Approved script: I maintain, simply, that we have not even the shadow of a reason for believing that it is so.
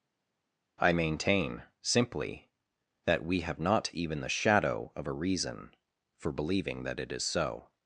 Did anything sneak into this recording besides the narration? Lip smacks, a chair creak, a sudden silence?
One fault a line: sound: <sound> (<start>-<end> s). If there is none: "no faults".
no faults